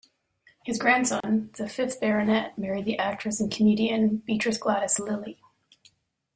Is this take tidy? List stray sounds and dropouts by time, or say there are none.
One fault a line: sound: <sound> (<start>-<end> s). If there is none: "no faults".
sound: dropout (1.2-1.2 s)